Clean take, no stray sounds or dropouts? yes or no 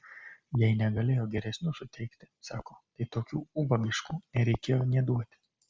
yes